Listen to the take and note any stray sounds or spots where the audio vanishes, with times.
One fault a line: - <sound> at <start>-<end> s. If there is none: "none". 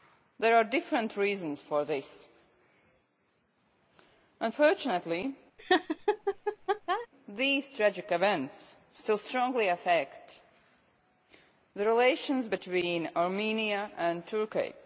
- laugh at 5.6-7.1 s